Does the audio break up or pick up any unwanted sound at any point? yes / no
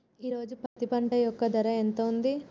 yes